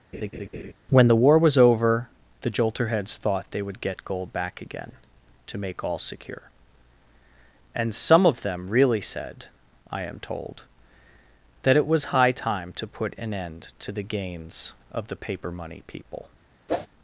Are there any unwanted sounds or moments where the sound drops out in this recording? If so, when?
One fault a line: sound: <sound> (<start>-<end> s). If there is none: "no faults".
sound: laugh (0.1-0.7 s)
sound: whoosh (16.7-16.9 s)